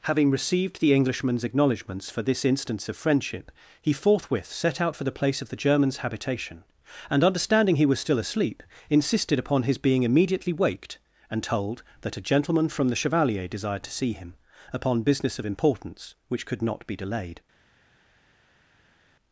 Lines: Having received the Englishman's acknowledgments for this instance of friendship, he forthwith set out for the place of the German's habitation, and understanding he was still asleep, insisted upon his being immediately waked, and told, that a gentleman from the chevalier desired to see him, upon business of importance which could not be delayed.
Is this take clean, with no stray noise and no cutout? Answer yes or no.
yes